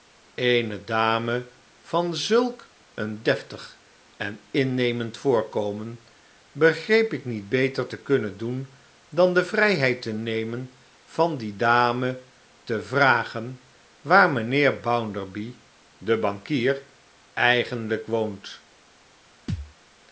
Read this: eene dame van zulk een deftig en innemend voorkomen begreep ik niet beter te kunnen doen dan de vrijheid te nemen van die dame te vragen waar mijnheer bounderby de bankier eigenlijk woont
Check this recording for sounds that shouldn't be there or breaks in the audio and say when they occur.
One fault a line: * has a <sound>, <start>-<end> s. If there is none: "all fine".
* has a thud, 19.5-19.7 s